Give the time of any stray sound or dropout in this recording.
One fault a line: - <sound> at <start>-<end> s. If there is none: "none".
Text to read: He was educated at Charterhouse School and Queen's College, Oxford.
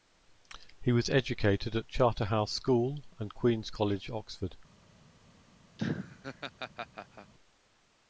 - laugh at 5.8-7.3 s